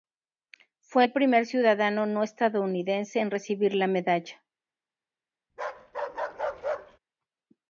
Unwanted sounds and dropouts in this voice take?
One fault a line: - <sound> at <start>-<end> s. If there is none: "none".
- bark at 5.5-7.0 s